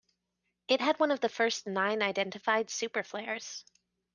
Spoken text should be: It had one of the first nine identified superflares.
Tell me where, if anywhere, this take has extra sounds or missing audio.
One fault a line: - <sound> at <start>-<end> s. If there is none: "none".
none